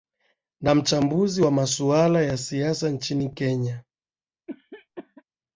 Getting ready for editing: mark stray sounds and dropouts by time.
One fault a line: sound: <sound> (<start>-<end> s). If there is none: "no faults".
sound: cough (4.5-5.2 s)